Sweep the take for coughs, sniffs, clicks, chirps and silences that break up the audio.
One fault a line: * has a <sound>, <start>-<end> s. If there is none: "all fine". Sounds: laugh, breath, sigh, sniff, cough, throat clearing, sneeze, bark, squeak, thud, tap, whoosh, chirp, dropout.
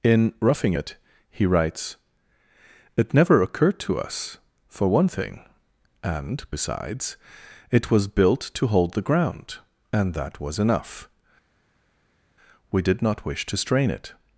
all fine